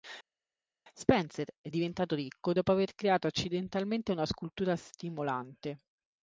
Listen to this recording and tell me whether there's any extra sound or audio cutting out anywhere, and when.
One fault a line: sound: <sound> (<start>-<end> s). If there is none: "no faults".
no faults